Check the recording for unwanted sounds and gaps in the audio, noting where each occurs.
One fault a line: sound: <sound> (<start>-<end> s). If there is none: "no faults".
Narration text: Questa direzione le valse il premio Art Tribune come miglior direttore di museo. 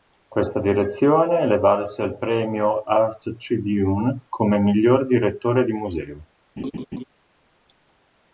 sound: laugh (6.6-7.0 s)